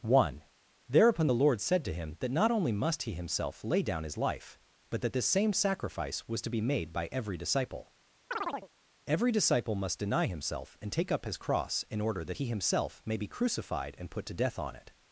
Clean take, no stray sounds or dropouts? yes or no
no